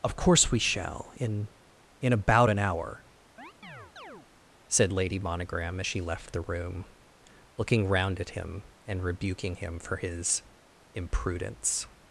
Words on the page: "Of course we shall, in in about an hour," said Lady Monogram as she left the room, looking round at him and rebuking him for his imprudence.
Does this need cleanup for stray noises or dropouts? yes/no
yes